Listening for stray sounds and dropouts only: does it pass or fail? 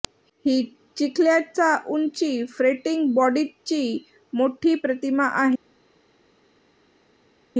pass